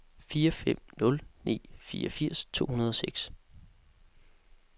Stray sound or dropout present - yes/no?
no